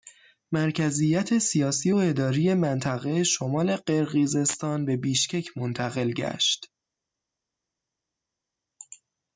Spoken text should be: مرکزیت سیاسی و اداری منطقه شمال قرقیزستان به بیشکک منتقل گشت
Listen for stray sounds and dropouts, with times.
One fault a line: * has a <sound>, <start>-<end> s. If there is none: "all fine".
all fine